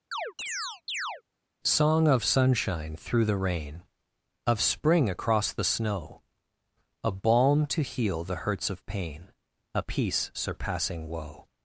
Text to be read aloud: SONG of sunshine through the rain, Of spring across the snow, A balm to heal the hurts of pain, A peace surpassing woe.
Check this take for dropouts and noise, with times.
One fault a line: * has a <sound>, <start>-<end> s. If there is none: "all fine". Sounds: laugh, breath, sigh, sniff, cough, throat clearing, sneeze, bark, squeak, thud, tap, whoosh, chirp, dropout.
* has a chirp, 0.1-1.2 s